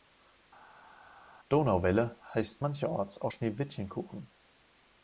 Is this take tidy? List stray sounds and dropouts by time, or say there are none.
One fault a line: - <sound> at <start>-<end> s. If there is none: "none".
none